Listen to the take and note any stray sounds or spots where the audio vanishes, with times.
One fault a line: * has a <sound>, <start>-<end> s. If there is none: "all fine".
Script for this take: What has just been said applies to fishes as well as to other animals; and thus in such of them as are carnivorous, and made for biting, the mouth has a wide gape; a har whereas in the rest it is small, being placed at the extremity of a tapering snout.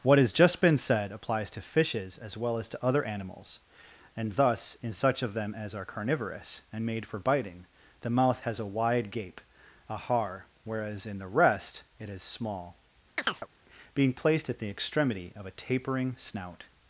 * has a chirp, 13.2-13.5 s